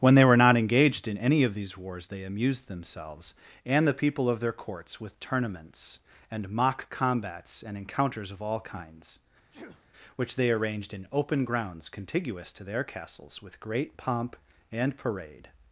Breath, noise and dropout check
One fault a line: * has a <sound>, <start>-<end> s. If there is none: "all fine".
* has a sneeze, 9.5-9.9 s